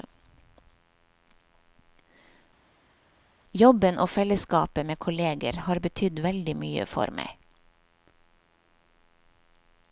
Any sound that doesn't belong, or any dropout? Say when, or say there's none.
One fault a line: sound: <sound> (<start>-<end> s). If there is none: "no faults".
no faults